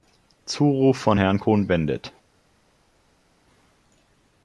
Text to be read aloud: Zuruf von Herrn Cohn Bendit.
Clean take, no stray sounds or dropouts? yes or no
yes